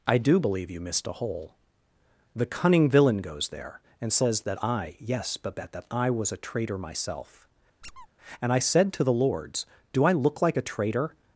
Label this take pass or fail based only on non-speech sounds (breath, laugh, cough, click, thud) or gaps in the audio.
fail